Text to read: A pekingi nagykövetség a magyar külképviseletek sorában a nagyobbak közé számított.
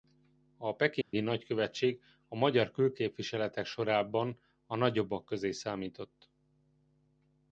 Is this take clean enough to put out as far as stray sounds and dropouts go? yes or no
no